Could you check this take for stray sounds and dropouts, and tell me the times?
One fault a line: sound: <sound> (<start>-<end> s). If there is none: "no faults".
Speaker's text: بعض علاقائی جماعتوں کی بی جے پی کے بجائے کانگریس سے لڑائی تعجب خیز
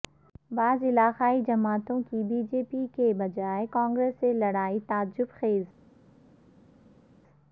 no faults